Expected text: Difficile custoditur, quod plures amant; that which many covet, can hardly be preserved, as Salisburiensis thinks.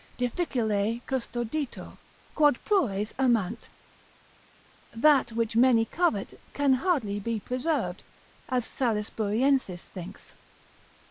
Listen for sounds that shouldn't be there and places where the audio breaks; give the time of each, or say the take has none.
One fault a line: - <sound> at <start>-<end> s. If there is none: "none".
none